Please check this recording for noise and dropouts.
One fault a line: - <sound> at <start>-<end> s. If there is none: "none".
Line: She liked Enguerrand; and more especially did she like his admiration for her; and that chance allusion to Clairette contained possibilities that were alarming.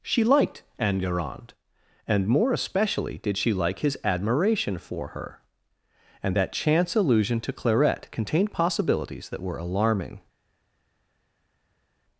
none